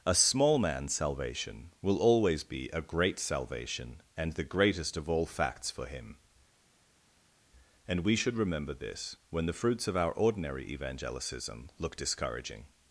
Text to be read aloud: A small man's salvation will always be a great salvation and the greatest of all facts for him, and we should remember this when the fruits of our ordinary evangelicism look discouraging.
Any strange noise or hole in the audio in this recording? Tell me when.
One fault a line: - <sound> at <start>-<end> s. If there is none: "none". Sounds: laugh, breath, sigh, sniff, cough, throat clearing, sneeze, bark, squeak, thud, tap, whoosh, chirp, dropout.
none